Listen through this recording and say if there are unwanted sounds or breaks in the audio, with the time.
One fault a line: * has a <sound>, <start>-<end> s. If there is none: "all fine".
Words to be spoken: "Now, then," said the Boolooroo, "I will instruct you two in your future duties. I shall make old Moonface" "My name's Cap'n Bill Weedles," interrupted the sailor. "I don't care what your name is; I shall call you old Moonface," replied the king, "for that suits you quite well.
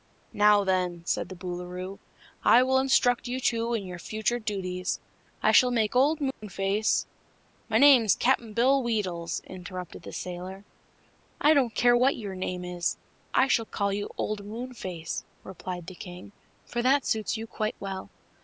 * has a dropout, 6.3-6.4 s